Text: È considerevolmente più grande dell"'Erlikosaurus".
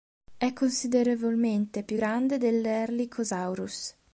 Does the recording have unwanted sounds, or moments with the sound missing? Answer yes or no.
no